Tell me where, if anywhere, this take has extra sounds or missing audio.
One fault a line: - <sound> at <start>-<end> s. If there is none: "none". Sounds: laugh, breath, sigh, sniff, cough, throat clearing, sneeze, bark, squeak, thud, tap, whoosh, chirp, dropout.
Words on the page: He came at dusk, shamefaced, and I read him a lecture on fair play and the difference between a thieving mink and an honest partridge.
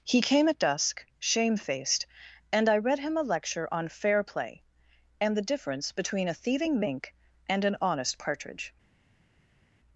none